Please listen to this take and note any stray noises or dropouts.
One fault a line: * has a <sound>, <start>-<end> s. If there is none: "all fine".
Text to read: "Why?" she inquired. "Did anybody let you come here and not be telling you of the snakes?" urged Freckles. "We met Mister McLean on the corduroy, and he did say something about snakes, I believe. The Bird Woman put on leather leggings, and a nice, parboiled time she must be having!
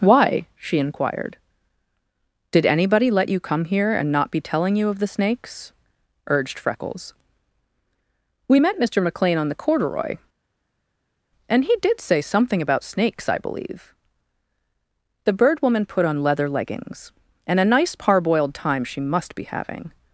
all fine